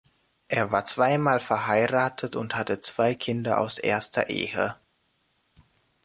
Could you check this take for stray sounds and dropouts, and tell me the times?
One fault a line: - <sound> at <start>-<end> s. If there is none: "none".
none